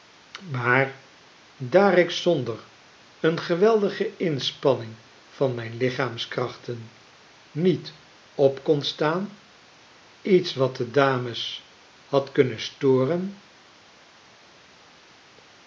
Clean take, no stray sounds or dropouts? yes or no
yes